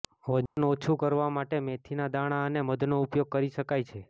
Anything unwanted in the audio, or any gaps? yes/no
yes